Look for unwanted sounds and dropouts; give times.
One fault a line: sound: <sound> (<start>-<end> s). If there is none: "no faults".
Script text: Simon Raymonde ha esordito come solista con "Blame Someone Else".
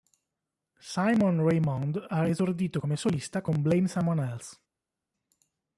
no faults